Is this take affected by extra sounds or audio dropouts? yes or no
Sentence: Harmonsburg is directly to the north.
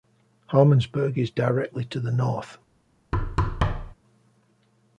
yes